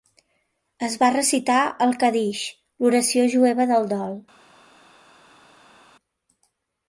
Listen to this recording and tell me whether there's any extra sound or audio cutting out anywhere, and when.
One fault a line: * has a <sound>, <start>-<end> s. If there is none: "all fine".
all fine